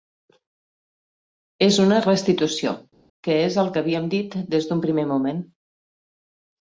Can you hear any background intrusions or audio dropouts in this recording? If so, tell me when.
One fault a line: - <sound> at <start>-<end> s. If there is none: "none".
none